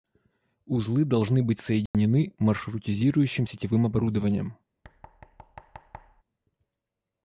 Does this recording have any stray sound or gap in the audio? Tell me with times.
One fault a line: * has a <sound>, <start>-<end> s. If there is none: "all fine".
* has a dropout, 1.9-1.9 s
* has a thud, 4.8-6.2 s